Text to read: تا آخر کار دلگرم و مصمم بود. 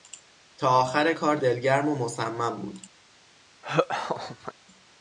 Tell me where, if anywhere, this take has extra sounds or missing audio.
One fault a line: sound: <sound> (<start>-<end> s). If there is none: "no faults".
sound: laugh (3.6-4.5 s)